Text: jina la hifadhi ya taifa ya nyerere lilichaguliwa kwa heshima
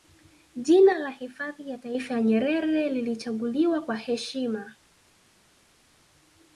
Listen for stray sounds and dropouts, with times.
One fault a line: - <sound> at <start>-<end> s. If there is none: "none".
none